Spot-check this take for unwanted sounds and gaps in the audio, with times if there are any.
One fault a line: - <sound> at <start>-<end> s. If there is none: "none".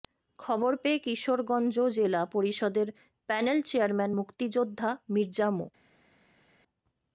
none